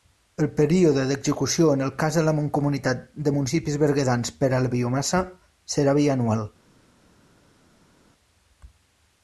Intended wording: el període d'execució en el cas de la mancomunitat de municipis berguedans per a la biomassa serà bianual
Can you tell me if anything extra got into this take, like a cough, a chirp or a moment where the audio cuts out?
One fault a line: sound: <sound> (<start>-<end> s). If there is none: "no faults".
no faults